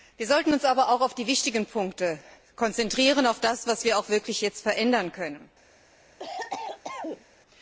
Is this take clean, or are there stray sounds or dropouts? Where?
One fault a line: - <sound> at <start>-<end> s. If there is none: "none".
- cough at 6.2-7.2 s